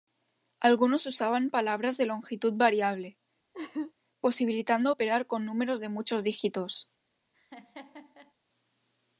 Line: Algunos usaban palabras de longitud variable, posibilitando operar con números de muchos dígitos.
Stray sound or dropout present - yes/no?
yes